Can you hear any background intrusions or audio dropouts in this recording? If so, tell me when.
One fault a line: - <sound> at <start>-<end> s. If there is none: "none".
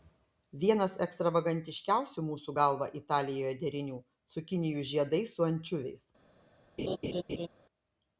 - laugh at 6.8-7.5 s